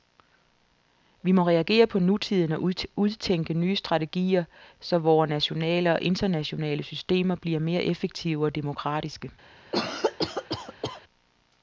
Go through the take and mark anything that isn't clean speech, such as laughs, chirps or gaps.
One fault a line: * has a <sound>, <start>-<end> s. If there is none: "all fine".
* has a cough, 9.7-11.0 s